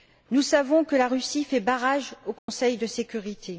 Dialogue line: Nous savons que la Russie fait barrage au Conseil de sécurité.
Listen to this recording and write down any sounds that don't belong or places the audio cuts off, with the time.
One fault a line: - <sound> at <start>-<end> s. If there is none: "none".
- dropout at 2.4-2.5 s